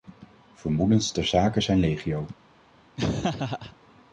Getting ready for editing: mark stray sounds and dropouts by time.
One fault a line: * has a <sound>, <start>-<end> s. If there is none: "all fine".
* has a laugh, 3.0-3.8 s